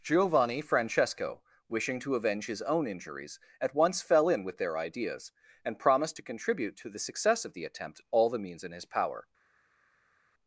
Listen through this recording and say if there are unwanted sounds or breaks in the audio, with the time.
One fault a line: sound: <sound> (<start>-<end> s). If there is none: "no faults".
no faults